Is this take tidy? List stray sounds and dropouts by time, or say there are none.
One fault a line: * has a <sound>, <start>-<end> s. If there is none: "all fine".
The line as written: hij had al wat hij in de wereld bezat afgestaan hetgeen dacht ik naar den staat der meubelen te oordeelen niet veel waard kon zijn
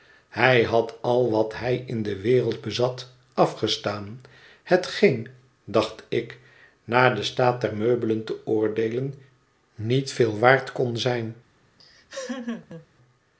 * has a laugh, 11.8-12.9 s